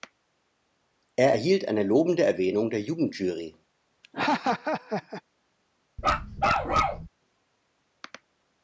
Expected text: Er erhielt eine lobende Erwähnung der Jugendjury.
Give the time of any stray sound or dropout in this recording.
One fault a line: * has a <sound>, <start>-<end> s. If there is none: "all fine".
* has a laugh, 4.0-5.2 s
* has a bark, 6.0-7.1 s